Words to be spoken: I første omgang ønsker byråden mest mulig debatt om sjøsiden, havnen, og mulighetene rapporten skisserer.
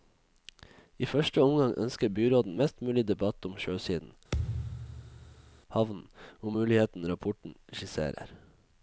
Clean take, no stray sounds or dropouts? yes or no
no